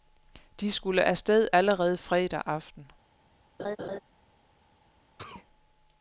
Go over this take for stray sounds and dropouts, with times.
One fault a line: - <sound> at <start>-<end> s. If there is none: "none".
- laugh at 3.6-4.0 s
- sneeze at 5.2-5.5 s